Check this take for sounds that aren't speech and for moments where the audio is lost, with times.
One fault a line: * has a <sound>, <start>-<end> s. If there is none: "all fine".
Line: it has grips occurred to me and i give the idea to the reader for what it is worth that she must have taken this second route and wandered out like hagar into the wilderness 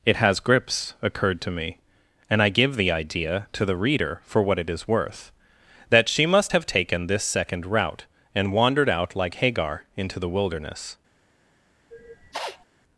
* has a sniff, 11.9-12.7 s